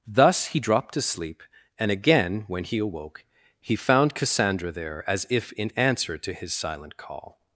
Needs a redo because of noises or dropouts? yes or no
no